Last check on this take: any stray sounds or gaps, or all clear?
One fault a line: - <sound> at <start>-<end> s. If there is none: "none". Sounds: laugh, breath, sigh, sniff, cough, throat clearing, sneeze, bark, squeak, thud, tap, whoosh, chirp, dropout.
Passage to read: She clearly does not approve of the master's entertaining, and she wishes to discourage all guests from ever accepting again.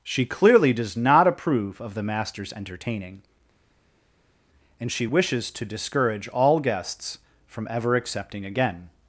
none